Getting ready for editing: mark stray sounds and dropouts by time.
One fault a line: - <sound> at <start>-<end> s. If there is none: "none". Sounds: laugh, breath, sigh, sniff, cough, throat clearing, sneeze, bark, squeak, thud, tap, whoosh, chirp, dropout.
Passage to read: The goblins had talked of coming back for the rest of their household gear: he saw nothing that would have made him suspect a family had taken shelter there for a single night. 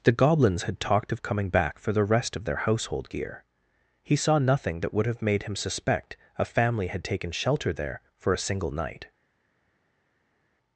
none